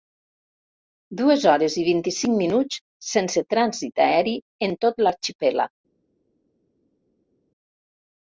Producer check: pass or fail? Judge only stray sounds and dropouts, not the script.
pass